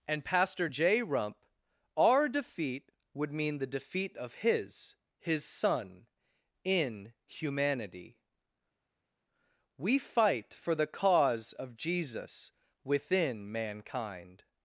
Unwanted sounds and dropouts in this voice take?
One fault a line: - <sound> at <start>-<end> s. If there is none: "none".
none